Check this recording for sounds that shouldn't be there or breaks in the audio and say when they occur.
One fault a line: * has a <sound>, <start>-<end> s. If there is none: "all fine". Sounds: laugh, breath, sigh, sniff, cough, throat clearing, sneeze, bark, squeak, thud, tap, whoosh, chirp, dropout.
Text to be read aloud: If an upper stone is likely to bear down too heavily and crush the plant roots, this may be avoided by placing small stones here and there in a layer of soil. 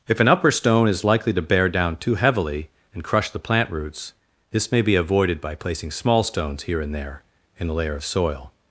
all fine